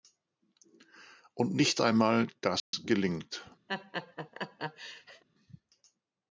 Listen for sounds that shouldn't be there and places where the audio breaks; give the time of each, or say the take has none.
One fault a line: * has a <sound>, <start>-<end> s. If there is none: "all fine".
* has a dropout, 2.6-2.7 s
* has a laugh, 3.7-5.2 s